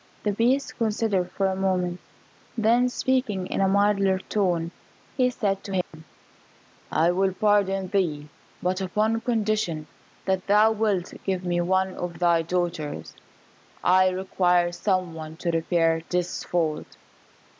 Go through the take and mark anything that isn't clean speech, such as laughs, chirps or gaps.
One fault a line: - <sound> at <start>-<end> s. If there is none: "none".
- dropout at 5.8-5.9 s